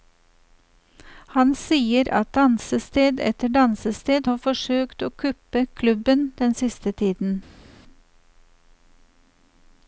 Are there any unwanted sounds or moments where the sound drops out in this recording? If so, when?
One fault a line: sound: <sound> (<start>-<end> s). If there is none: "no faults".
no faults